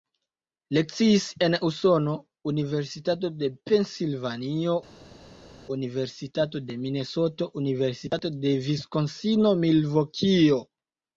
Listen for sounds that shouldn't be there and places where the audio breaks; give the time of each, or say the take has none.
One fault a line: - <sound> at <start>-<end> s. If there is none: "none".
none